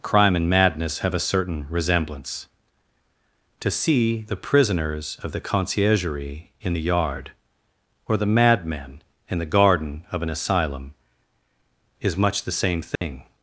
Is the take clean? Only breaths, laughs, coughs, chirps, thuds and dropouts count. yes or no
no